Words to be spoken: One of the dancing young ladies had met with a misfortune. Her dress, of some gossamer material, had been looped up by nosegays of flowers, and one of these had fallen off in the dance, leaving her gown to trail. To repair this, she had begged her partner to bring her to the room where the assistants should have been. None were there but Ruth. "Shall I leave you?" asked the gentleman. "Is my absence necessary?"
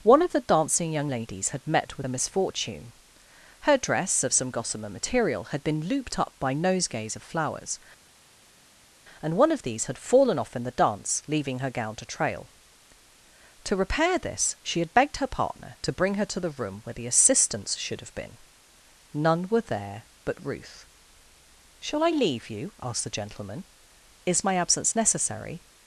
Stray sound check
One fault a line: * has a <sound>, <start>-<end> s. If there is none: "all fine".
all fine